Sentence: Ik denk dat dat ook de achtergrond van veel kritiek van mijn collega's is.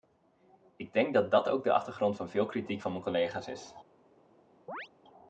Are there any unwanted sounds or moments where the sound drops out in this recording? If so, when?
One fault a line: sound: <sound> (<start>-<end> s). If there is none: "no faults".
sound: chirp (4.7-4.9 s)